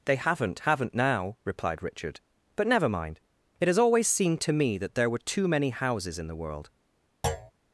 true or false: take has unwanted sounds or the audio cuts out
true